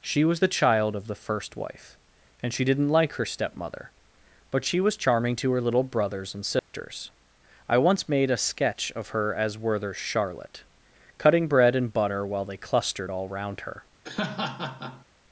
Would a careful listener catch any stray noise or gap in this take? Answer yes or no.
yes